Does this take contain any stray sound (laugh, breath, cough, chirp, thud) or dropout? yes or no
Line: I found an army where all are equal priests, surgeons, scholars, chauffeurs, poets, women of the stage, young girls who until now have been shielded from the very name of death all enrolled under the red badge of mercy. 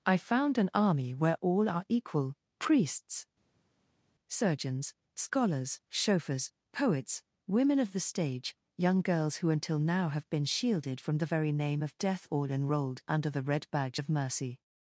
no